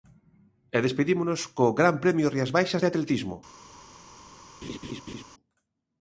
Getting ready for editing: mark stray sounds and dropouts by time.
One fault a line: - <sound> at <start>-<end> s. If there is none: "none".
- laugh at 4.6-5.2 s